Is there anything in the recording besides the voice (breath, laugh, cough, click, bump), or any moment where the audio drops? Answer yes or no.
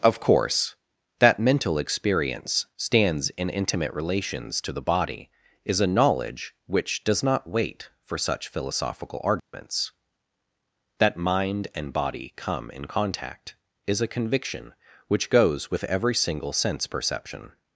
yes